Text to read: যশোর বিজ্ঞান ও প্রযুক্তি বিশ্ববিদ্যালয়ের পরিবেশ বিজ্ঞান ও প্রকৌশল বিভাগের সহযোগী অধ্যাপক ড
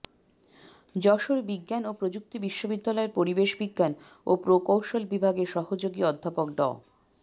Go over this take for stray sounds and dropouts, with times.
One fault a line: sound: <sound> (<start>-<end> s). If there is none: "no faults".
no faults